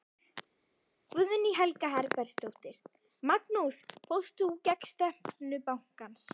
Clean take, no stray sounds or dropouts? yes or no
yes